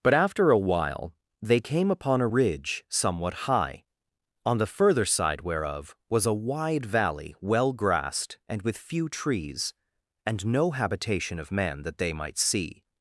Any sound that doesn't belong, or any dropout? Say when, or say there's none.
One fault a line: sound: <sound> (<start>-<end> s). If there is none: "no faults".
no faults